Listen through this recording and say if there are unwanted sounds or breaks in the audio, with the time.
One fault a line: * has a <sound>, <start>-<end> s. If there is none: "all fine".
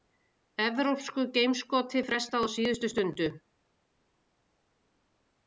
all fine